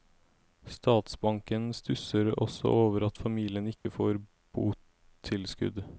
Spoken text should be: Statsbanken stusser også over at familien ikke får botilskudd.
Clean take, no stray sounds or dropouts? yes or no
no